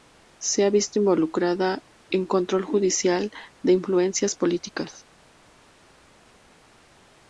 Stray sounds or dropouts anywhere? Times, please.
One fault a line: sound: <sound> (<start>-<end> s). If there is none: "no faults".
no faults